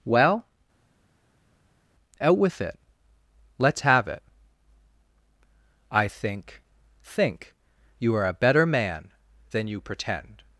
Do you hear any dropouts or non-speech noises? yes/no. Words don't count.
no